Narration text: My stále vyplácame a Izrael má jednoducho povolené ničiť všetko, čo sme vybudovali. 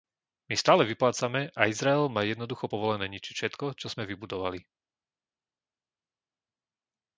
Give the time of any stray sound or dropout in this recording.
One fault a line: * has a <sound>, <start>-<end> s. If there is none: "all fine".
all fine